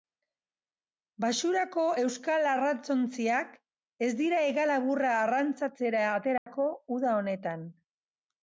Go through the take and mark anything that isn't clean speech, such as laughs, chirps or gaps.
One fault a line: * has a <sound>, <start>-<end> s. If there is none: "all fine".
* has a dropout, 6.4-6.5 s